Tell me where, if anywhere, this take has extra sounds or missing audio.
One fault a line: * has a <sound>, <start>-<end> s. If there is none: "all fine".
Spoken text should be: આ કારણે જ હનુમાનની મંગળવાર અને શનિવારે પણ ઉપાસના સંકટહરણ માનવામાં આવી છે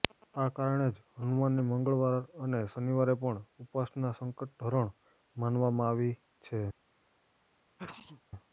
* has a sneeze, 7.8-8.2 s